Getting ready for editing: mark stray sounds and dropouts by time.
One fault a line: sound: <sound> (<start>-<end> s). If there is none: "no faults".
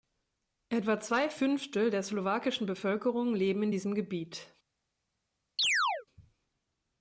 sound: chirp (5.6-6.1 s)